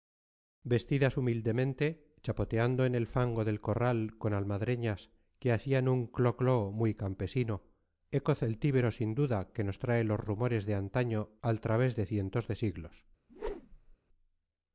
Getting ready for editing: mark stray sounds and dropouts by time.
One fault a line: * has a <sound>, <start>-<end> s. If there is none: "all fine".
* has a whoosh, 13.3-14.0 s